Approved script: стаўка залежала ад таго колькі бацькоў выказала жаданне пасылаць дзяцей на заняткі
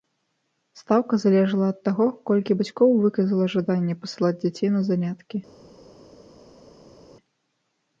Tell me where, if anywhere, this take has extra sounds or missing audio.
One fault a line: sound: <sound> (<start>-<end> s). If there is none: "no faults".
no faults